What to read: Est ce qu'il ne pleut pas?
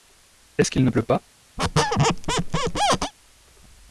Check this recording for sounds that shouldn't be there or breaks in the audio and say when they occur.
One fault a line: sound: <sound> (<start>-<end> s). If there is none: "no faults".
sound: squeak (1.6-3.1 s)